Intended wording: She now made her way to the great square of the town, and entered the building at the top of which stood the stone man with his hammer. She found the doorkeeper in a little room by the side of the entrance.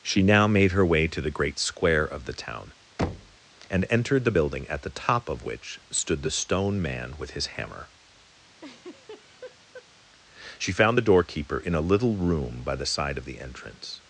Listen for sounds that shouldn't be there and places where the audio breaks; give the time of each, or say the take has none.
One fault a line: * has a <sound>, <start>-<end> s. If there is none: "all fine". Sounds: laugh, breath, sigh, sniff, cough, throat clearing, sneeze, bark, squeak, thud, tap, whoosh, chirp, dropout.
* has a thud, 3.0-3.4 s
* has a laugh, 8.6-9.9 s